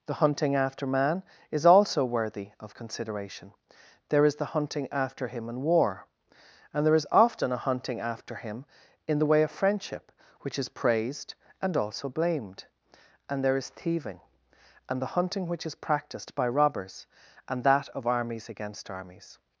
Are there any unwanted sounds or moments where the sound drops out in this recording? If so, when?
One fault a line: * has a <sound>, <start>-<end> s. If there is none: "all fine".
all fine